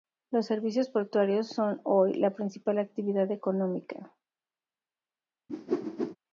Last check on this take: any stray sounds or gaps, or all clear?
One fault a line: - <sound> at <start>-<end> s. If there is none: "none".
- whoosh at 5.5-6.2 s